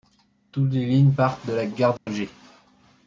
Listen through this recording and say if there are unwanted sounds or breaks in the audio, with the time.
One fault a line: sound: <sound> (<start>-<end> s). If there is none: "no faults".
sound: dropout (2.0-2.1 s)